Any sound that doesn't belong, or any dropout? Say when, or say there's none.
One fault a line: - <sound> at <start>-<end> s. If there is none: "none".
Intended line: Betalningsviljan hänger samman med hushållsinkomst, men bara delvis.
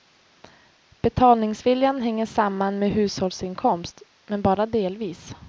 none